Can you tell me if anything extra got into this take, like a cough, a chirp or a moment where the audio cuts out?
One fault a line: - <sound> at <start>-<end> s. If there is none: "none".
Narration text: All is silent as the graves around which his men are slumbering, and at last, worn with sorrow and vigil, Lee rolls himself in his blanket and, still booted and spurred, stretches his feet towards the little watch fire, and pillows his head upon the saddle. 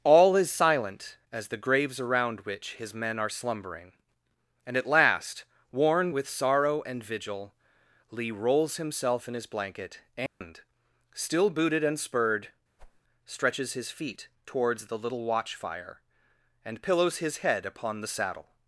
- dropout at 10.3-10.4 s
- whoosh at 12.8-13.0 s